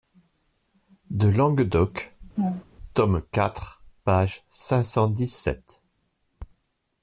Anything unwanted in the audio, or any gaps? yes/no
yes